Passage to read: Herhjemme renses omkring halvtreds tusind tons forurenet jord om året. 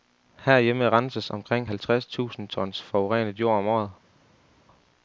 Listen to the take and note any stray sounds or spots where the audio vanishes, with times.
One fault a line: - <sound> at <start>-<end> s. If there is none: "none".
none